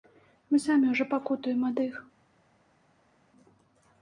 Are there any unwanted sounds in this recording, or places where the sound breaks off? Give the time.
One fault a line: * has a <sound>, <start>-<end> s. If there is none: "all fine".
all fine